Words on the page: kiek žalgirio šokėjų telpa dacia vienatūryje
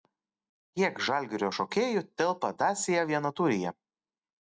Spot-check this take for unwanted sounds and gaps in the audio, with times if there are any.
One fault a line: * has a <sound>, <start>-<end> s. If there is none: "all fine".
all fine